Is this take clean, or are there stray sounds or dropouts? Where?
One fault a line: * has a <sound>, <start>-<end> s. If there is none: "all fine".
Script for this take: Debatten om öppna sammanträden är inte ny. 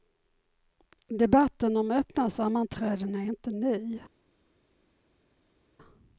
all fine